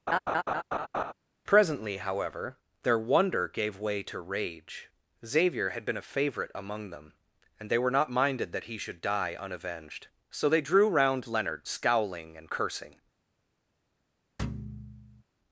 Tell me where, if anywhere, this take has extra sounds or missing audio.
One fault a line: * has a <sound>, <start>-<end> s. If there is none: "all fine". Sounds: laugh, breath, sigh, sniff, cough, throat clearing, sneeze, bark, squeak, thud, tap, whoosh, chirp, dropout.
* has a laugh, 0.1-1.1 s
* has a thud, 14.4-15.2 s